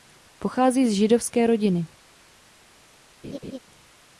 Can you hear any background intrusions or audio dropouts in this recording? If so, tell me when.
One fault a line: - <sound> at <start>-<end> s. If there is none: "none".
- laugh at 3.2-3.6 s